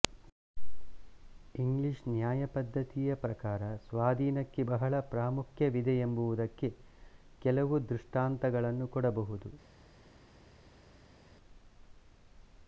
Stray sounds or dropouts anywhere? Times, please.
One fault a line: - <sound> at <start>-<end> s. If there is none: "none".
none